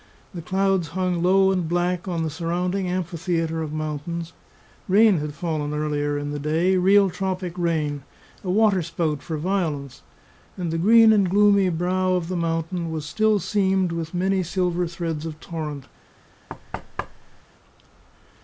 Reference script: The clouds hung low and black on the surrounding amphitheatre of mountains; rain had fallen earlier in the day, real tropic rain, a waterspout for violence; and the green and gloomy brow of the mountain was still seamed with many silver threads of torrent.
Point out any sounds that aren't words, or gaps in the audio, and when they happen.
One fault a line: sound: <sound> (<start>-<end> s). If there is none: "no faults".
sound: thud (16.5-17.4 s)